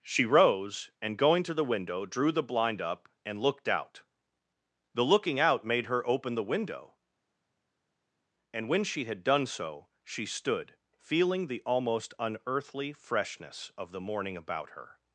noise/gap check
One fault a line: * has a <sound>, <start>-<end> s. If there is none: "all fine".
all fine